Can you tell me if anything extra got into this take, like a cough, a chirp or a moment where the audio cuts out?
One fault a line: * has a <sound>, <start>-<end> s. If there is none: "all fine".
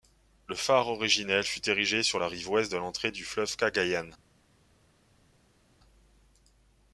all fine